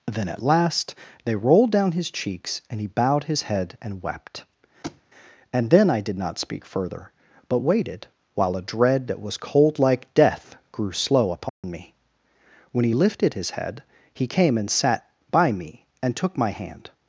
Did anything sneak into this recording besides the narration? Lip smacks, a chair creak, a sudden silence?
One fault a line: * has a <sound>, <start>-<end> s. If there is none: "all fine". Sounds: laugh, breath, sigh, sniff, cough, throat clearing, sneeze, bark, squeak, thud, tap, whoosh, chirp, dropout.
* has a thud, 4.8-5.0 s
* has a dropout, 11.5-11.6 s